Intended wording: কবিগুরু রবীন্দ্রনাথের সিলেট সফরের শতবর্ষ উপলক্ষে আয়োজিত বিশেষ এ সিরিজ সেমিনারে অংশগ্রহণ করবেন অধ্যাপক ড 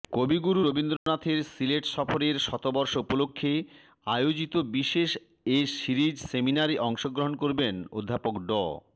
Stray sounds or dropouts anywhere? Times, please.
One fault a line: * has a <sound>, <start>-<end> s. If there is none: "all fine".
* has a dropout, 1.0-1.1 s